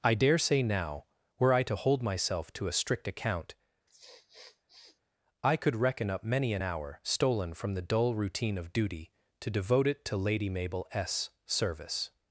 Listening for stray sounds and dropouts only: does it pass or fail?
fail